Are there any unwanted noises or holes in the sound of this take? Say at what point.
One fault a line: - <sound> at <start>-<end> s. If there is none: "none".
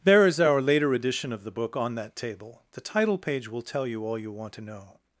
none